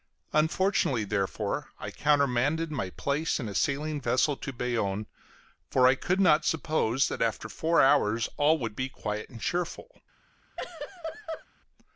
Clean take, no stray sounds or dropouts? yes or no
no